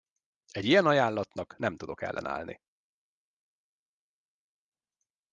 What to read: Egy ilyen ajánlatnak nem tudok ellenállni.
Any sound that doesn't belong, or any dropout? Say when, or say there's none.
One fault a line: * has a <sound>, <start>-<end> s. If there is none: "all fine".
all fine